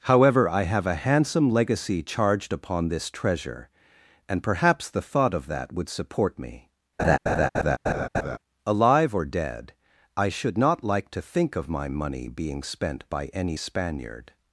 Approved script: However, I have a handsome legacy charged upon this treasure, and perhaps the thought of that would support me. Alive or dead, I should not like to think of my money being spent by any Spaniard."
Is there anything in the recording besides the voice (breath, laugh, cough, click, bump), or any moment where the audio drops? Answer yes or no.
yes